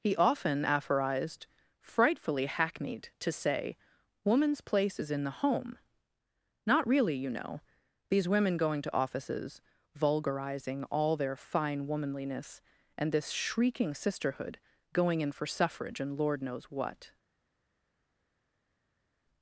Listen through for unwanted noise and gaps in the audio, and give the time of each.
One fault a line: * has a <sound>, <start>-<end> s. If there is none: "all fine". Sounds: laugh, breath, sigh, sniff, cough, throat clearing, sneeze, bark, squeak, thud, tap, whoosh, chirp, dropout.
all fine